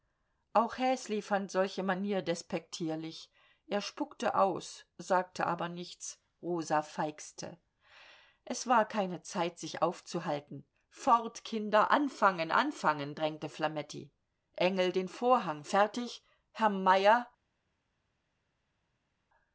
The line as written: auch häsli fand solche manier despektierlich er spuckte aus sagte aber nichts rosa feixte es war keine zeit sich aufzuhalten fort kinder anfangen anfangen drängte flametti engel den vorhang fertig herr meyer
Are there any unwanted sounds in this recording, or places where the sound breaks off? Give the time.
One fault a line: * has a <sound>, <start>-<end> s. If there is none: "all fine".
all fine